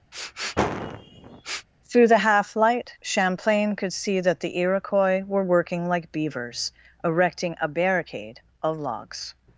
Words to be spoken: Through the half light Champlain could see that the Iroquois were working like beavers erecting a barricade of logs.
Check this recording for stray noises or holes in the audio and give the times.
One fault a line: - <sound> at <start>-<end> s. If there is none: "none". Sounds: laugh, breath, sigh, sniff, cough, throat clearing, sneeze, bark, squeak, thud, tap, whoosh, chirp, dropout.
- sniff at 0.1-1.7 s